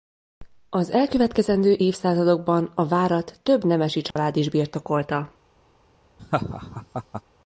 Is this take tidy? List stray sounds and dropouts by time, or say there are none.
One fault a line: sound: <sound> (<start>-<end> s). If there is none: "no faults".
sound: dropout (4.1-4.2 s)
sound: laugh (6.2-7.2 s)